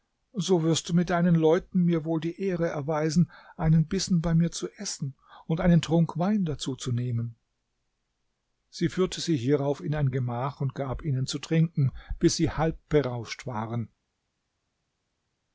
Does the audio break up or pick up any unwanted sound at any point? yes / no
no